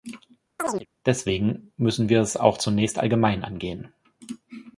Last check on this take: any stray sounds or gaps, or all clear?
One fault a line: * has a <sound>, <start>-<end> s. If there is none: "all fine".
* has a chirp, 0.6-0.9 s